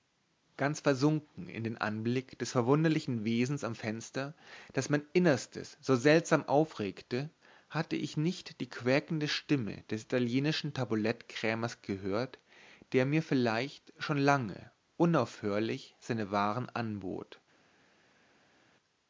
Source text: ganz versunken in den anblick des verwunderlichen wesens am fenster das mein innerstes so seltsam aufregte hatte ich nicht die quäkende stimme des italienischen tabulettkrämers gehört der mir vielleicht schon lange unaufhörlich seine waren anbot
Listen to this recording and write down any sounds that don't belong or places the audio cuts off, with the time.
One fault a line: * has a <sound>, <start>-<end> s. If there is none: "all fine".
all fine